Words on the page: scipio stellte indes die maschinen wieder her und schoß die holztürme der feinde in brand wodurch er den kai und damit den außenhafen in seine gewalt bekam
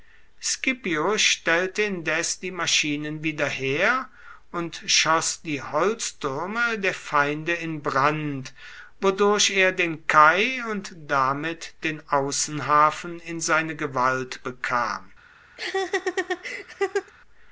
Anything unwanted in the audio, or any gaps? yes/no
yes